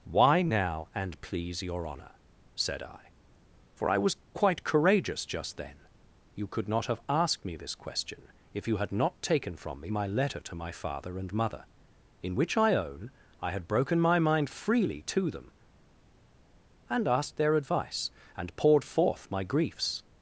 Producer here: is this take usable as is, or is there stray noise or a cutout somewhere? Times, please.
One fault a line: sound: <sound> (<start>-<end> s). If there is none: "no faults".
no faults